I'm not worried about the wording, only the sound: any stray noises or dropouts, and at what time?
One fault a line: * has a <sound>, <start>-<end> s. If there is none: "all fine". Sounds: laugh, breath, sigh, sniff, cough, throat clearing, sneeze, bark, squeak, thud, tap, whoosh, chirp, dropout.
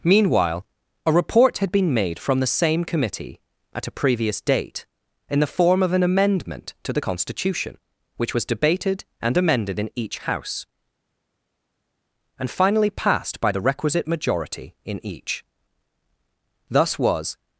all fine